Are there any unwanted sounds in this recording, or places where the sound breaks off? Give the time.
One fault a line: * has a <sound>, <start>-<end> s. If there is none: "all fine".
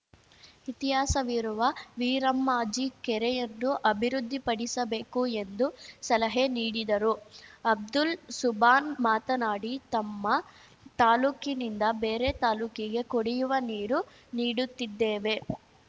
all fine